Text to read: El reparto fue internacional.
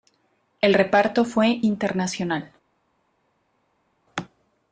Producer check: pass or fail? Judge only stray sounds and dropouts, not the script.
pass